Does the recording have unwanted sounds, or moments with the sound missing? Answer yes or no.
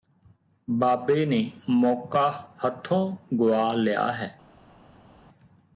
no